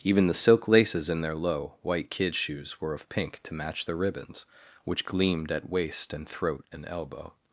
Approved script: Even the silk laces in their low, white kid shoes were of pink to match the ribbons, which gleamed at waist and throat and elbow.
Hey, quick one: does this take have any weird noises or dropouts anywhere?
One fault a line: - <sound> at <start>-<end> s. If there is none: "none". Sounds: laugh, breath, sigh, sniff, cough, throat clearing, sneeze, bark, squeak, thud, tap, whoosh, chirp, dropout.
none